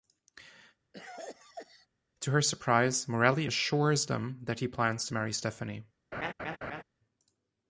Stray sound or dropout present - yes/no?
yes